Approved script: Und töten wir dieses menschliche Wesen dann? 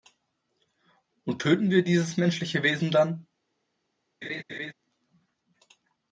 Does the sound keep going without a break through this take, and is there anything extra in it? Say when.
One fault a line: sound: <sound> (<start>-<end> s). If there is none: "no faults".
sound: laugh (4.2-4.7 s)